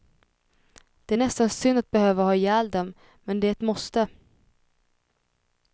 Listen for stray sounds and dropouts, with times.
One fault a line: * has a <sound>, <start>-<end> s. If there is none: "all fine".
all fine